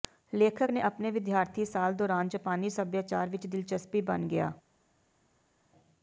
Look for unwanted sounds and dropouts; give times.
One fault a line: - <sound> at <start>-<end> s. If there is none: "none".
none